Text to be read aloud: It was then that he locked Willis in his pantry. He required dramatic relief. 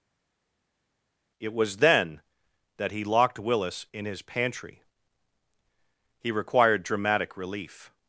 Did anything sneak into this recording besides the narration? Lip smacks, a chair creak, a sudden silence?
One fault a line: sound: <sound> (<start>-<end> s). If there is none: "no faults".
no faults